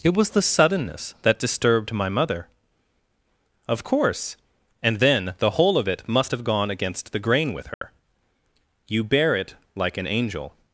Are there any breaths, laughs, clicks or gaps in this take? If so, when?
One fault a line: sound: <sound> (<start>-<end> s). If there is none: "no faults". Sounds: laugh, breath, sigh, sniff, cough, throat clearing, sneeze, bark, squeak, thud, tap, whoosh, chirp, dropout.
sound: dropout (7.7-7.8 s)